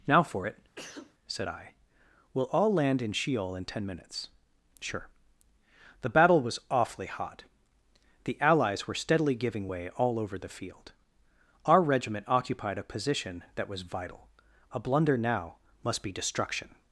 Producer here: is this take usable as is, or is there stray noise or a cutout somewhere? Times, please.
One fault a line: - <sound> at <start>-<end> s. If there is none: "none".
- sneeze at 0.8-1.1 s